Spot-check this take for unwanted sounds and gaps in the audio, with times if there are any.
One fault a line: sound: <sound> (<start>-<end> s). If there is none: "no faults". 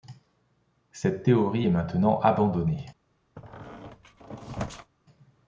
sound: squeak (3.4-4.9 s)